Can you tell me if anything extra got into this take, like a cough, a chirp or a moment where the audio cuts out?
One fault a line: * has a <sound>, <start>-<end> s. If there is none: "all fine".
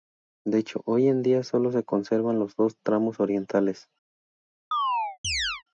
* has a chirp, 4.7-5.6 s